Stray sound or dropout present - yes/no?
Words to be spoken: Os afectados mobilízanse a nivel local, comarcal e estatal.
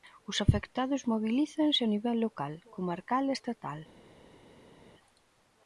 no